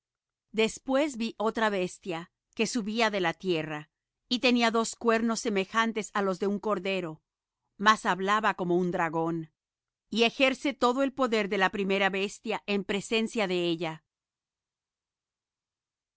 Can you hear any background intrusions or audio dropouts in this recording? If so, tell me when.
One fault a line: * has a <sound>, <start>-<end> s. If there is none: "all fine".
all fine